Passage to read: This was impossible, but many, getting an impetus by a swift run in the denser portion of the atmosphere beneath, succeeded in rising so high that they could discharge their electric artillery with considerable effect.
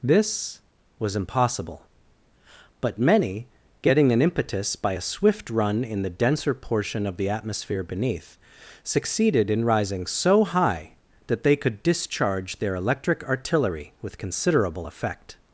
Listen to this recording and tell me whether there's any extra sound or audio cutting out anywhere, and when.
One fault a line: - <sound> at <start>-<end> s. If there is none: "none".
none